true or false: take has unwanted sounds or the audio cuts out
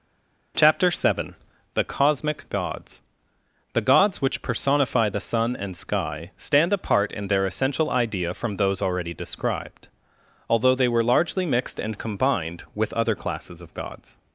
false